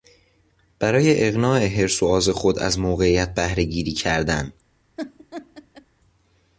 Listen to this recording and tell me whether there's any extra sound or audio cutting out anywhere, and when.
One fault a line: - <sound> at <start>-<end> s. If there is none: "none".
- laugh at 5.0-5.9 s